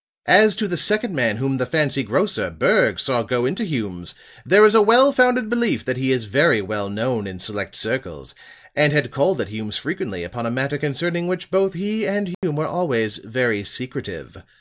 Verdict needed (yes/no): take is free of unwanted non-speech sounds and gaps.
no